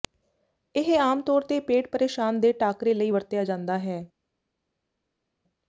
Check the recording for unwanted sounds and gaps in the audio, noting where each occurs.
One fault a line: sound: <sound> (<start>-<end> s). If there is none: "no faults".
no faults